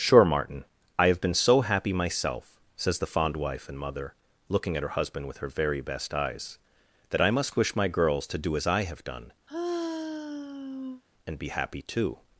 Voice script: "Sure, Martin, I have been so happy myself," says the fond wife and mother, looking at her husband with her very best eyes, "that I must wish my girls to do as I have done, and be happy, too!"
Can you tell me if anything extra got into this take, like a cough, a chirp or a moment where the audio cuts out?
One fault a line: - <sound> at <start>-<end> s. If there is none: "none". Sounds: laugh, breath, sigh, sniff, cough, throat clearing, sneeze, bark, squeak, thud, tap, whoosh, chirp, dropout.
- sigh at 9.5-11.0 s